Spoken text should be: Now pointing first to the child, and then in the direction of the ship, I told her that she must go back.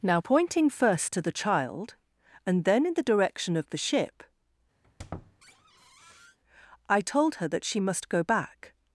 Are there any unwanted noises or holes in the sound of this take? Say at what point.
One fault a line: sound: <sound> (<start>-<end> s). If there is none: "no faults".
sound: squeak (4.8-6.4 s)